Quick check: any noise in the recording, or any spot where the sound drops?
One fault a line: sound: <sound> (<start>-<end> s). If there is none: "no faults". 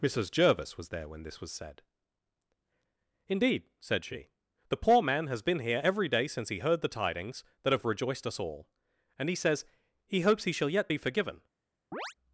sound: chirp (11.9-12.1 s)